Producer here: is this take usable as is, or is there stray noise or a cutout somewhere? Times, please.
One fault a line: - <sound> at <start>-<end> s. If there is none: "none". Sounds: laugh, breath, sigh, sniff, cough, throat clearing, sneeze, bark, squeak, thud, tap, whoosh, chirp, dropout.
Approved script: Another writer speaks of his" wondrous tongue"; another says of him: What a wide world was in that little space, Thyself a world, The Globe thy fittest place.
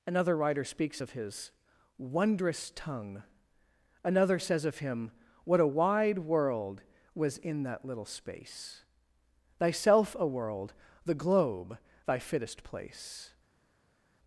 none